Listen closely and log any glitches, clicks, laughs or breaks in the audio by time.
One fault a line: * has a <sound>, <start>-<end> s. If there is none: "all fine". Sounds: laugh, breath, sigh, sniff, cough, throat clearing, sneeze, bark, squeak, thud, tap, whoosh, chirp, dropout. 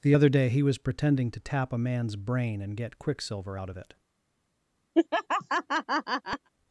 * has a laugh, 4.9-6.5 s